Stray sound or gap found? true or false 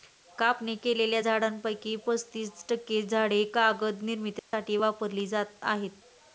true